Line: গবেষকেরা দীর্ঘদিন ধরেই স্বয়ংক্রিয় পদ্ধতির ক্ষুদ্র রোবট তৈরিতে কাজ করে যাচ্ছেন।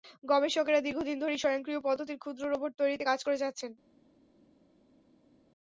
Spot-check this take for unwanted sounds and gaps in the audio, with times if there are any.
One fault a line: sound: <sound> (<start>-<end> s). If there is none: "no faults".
no faults